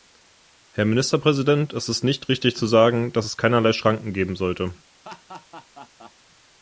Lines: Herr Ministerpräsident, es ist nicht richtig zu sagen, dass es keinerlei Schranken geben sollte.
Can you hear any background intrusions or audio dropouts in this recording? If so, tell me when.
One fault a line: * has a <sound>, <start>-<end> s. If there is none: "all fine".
* has a laugh, 5.0-6.1 s